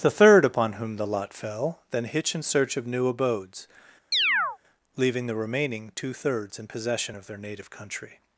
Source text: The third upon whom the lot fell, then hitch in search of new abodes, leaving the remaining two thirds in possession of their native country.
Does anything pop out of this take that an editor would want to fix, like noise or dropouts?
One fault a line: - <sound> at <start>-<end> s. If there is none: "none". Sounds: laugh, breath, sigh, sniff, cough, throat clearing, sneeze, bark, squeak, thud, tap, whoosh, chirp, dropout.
- chirp at 4.1-4.6 s